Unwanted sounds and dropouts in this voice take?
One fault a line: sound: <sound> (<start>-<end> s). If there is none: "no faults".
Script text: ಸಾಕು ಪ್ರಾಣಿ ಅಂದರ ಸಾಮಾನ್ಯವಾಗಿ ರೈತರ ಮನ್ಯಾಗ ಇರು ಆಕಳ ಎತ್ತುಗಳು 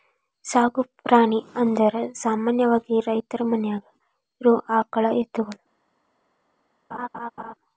sound: laugh (6.9-7.5 s)